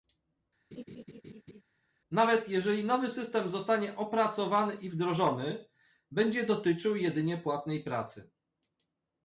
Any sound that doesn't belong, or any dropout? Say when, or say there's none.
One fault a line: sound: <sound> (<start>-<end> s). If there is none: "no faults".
sound: laugh (0.7-1.6 s)